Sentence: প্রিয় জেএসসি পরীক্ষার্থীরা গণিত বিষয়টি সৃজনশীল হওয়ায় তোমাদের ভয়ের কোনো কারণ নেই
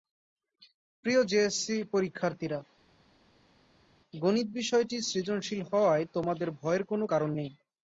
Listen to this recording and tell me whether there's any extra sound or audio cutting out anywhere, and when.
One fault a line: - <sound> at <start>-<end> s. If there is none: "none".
none